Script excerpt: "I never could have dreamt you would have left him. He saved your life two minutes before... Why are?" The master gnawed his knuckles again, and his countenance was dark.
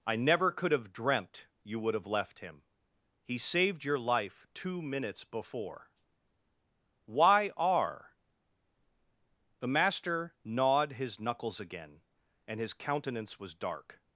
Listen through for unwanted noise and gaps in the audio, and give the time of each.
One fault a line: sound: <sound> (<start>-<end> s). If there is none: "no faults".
no faults